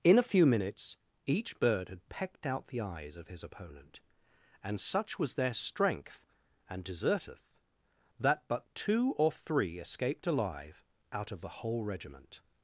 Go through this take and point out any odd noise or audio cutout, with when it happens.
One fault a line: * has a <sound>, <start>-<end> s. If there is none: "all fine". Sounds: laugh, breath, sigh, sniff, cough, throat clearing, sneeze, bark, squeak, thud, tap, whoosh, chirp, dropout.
all fine